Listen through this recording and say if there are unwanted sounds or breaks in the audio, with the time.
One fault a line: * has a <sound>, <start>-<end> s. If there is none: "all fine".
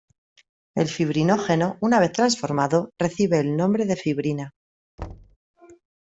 * has a thud, 5.0-5.4 s